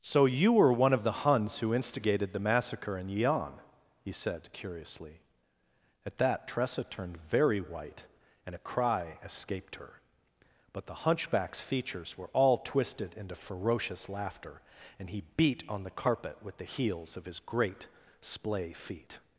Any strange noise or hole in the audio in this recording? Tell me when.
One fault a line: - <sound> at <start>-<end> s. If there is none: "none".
none